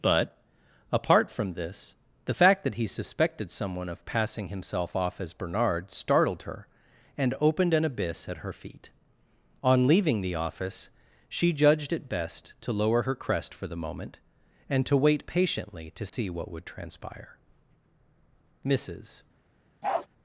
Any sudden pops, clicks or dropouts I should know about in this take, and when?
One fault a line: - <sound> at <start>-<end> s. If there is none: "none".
- dropout at 16.1-16.1 s
- bark at 19.8-20.1 s